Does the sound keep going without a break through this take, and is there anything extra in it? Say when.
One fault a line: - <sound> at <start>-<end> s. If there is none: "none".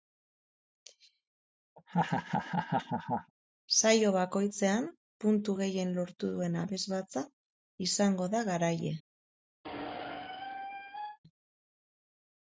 - laugh at 1.8-3.3 s
- squeak at 9.6-11.2 s